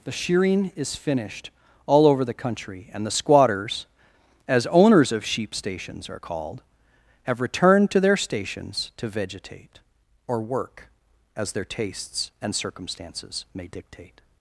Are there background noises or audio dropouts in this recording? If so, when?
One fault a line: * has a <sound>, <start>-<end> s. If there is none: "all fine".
all fine